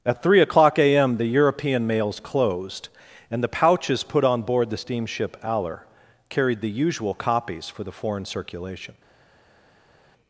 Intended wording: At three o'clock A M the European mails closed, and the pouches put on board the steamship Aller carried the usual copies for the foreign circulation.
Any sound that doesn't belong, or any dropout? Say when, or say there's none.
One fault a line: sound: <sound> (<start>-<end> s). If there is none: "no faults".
no faults